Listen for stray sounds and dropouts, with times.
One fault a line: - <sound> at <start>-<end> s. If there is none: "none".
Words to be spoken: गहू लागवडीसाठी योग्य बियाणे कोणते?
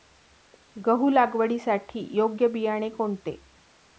none